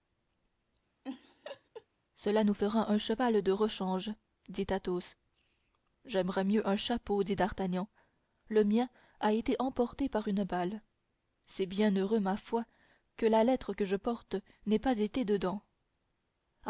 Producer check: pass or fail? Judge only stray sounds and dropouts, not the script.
fail